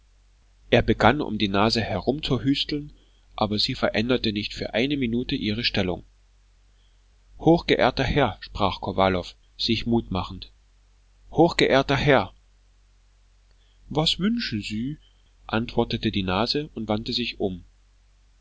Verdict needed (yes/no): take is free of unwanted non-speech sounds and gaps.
yes